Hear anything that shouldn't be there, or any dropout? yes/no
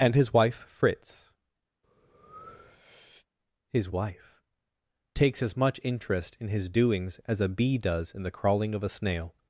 yes